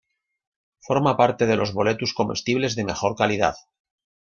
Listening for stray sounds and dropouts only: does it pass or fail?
pass